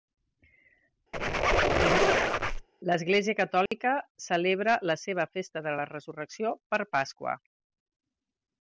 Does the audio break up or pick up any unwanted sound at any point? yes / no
yes